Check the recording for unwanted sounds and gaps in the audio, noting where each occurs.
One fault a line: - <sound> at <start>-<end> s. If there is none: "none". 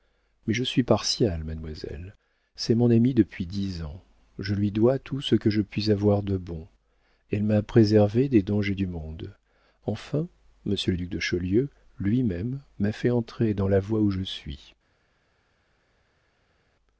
none